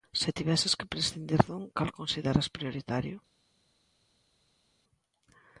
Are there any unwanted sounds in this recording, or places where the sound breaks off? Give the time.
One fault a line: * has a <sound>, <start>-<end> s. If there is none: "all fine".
all fine